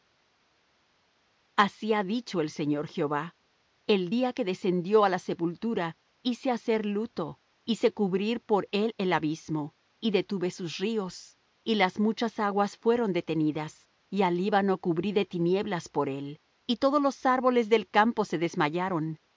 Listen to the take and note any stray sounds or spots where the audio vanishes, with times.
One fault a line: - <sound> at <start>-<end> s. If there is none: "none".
none